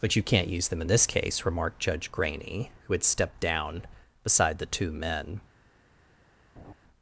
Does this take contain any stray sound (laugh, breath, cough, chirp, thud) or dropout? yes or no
yes